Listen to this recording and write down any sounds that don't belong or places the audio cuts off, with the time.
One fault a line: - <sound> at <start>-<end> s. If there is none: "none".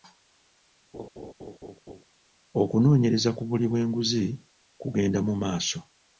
- laugh at 0.9-2.0 s